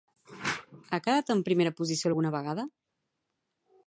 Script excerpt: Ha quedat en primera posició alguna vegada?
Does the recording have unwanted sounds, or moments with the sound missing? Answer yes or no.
no